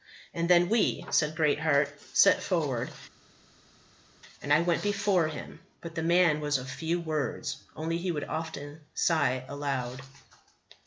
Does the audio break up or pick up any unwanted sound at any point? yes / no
no